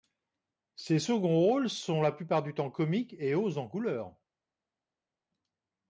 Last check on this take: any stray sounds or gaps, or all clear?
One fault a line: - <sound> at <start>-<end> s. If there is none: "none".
none